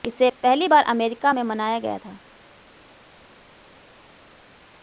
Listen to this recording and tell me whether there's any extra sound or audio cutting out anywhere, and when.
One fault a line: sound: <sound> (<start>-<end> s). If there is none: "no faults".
no faults